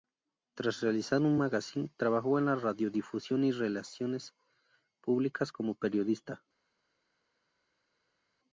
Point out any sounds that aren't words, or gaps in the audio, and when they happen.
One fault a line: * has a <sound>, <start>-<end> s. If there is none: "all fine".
all fine